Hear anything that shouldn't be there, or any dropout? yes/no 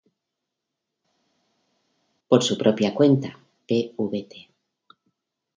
no